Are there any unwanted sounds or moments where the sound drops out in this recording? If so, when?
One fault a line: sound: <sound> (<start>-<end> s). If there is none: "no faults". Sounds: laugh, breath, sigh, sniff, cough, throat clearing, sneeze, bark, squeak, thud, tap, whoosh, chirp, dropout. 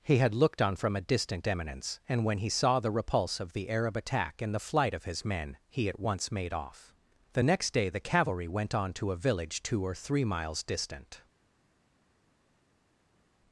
no faults